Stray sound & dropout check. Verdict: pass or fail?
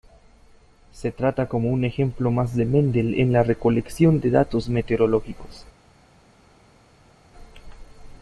pass